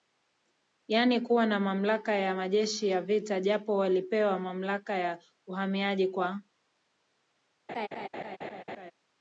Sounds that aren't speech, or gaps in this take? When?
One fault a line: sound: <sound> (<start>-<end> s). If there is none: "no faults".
sound: laugh (7.7-8.9 s)